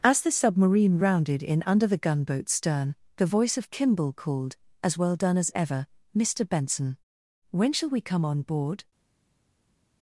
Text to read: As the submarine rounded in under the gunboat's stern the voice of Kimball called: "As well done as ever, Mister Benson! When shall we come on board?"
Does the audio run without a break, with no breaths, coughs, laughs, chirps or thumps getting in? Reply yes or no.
yes